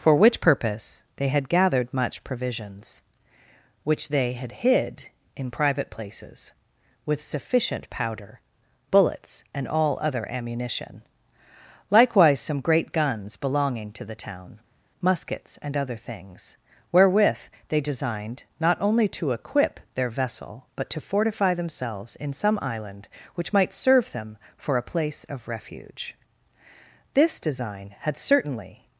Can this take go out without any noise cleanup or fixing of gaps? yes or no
yes